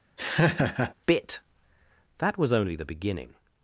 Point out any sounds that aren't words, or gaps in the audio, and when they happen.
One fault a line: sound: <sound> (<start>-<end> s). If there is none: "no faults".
sound: laugh (0.2-0.9 s)